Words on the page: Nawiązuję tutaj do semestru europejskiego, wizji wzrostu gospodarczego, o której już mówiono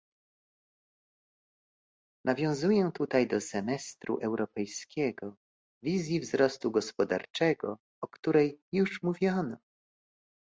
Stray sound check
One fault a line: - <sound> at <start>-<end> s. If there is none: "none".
none